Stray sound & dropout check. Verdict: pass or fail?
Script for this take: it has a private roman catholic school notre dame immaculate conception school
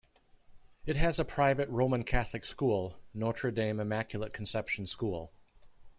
pass